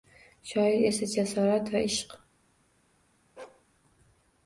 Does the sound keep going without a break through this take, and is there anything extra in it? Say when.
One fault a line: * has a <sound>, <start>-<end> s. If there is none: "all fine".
* has a bark, 3.4-3.6 s